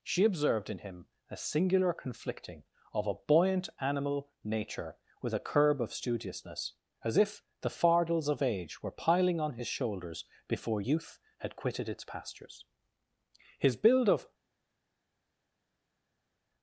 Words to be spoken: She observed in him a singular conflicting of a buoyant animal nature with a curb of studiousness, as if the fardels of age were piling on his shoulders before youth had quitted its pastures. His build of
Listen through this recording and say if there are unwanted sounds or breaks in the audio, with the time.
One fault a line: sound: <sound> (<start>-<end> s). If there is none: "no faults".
no faults